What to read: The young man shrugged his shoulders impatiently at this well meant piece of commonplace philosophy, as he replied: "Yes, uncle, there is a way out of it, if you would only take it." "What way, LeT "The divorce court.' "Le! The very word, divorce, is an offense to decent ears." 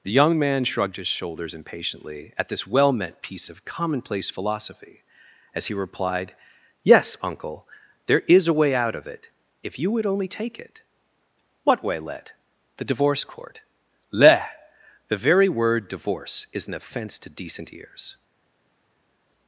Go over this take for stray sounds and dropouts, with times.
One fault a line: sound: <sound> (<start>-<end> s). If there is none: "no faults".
no faults